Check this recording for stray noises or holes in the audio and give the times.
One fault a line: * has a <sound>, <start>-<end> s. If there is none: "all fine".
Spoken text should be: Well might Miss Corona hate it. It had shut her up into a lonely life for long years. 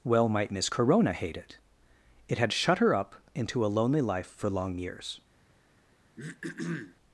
* has a throat clearing, 6.2-7.0 s